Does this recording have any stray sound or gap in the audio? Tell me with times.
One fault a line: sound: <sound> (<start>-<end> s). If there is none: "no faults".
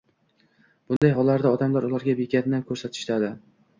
sound: dropout (1.0-1.0 s)